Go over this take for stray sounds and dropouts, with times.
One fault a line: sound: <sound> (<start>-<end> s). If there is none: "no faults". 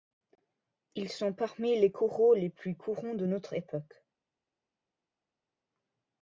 no faults